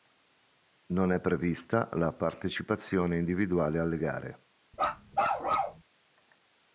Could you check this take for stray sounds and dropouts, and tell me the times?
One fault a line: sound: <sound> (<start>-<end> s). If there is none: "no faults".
sound: bark (4.7-5.8 s)